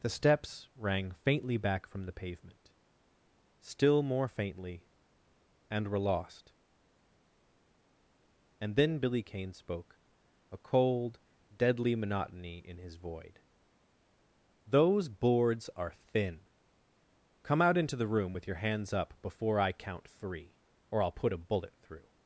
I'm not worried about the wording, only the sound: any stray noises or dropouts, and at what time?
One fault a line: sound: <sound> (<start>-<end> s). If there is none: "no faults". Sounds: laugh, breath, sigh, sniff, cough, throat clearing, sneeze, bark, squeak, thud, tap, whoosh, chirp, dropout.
no faults